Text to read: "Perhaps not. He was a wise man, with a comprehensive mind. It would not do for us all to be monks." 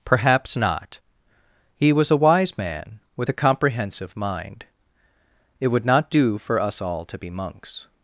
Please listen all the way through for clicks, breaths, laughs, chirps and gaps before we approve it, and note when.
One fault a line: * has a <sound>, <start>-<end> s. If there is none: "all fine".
all fine